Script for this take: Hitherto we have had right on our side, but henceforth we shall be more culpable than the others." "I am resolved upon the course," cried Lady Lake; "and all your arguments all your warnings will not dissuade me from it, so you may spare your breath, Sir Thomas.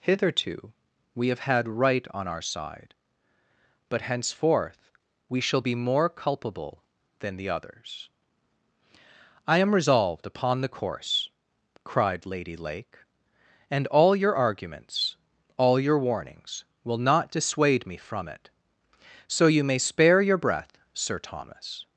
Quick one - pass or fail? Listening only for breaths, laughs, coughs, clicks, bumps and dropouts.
pass